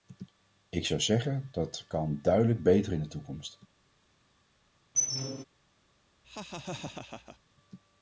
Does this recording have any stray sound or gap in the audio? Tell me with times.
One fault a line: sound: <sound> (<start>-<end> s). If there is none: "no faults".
sound: squeak (4.9-5.4 s)
sound: laugh (6.2-7.4 s)